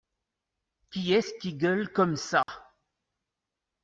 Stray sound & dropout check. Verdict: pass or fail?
fail